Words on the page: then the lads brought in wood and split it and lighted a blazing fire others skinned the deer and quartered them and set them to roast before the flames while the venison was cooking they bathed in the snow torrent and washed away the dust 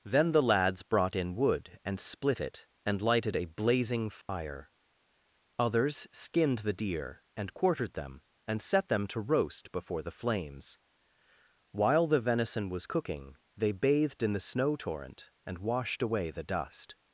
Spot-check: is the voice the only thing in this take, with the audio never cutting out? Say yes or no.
no